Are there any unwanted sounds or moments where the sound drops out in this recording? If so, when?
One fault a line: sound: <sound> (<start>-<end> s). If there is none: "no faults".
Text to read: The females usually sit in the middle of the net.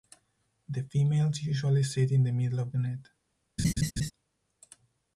sound: laugh (3.6-4.1 s)